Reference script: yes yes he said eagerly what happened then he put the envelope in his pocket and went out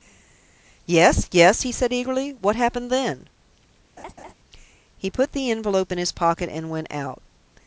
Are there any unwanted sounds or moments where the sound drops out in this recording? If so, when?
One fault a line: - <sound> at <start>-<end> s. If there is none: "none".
- laugh at 4.0-4.3 s